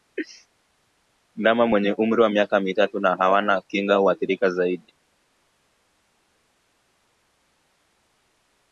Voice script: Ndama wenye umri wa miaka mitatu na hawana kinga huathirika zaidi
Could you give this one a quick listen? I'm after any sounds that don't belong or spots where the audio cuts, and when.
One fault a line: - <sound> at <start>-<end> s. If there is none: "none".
none